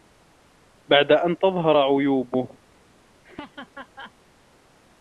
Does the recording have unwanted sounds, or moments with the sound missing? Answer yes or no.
yes